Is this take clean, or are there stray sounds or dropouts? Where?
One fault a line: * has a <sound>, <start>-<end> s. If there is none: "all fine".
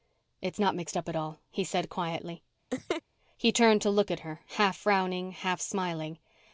* has a laugh, 2.7-3.0 s